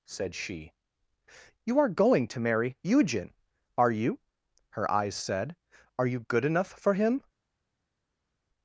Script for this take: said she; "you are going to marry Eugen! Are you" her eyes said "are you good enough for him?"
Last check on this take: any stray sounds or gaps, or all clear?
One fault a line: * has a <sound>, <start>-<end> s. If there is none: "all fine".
all fine